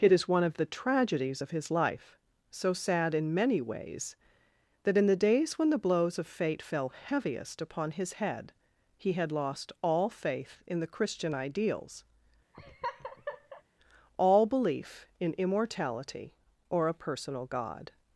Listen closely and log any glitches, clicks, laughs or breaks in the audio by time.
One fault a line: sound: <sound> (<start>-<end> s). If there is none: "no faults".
sound: laugh (12.5-13.6 s)